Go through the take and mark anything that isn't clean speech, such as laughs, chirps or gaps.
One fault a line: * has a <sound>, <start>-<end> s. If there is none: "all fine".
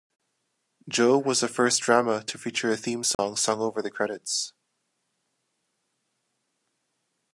* has a dropout, 3.1-3.2 s